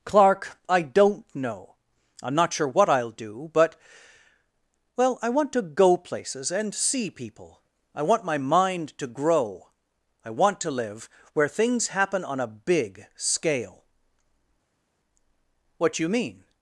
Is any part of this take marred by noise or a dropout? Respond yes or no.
no